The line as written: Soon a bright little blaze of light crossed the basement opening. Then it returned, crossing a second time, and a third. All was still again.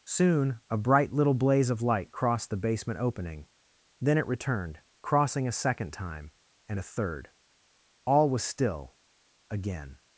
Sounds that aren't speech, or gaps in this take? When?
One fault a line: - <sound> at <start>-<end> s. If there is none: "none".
none